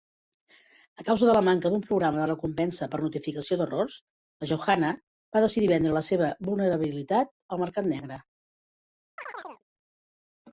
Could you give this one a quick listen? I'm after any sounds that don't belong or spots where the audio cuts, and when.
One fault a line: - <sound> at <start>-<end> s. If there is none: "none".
- chirp at 9.2-9.6 s